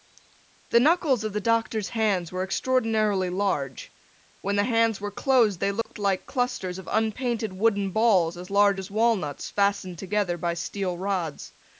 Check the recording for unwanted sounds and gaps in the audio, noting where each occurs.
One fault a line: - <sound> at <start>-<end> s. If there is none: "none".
- dropout at 5.8-5.9 s